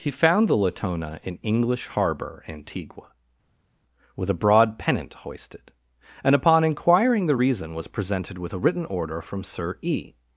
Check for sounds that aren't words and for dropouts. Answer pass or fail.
pass